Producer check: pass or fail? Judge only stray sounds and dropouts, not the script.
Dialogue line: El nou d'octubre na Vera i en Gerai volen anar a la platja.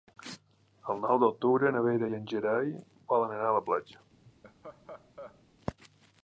fail